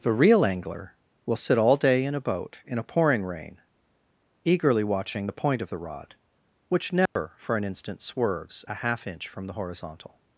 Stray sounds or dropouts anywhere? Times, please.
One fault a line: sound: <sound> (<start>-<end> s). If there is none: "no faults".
sound: dropout (7.1-7.2 s)